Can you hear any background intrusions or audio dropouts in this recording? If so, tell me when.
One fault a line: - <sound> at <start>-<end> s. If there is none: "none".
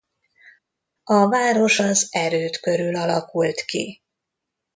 none